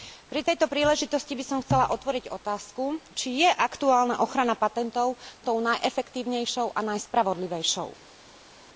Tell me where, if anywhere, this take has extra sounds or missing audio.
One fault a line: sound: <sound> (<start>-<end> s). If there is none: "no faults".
no faults